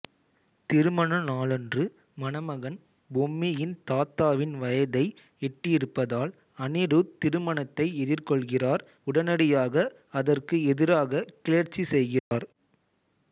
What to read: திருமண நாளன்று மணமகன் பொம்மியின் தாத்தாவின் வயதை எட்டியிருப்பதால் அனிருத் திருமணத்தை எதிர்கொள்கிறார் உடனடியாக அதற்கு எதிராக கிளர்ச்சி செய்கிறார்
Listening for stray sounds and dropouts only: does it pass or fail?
fail